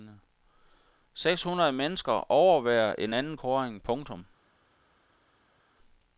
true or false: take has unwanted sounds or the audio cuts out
false